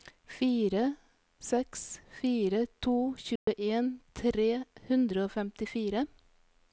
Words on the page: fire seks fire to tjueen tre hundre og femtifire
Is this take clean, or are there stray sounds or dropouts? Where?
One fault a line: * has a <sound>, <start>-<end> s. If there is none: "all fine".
* has a dropout, 3.4-3.5 s